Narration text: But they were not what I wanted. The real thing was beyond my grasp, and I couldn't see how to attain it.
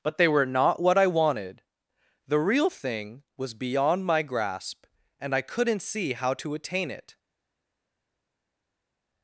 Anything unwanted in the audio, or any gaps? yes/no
no